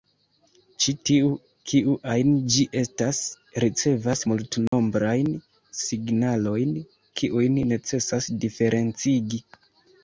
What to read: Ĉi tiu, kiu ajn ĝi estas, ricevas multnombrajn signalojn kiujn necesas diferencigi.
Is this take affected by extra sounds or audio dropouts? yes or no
yes